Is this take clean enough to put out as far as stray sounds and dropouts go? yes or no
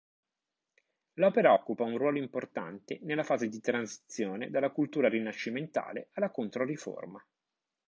yes